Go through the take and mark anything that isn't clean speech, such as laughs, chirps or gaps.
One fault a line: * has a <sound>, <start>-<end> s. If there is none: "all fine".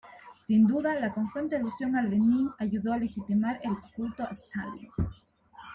all fine